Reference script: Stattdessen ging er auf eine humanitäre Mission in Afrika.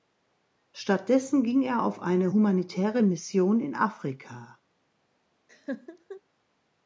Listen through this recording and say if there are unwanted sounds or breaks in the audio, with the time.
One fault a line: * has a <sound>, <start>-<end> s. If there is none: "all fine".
* has a laugh, 5.5-6.2 s